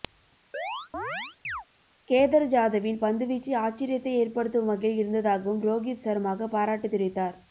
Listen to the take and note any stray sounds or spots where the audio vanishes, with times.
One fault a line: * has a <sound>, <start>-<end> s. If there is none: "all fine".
* has a chirp, 0.5-1.6 s